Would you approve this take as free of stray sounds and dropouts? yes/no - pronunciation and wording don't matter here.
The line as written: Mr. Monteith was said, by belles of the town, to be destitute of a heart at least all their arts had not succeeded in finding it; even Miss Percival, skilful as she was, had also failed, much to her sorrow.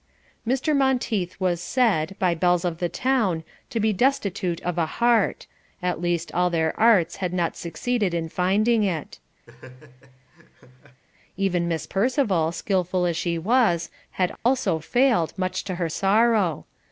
no